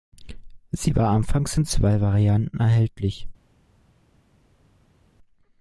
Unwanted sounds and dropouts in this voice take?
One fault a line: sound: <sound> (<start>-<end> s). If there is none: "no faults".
no faults